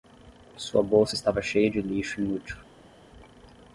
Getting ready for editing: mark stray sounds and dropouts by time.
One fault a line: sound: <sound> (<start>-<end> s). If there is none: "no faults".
no faults